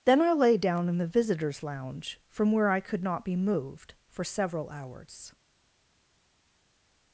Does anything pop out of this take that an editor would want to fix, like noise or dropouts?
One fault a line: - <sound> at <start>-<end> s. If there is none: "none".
none